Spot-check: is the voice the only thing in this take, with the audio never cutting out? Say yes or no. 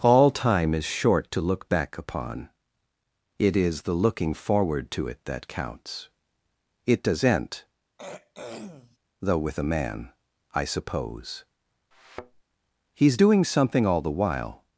no